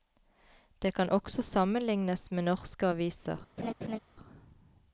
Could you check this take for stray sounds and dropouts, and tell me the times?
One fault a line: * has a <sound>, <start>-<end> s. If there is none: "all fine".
* has a laugh, 3.6-4.0 s